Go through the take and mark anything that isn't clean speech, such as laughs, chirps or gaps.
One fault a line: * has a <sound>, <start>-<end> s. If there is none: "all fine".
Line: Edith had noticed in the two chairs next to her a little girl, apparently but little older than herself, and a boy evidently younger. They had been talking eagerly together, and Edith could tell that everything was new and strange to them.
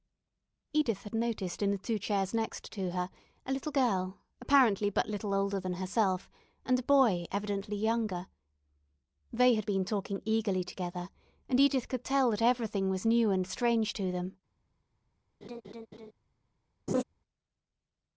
* has a laugh, 15.4-16.1 s
* has a laugh, 16.9-17.0 s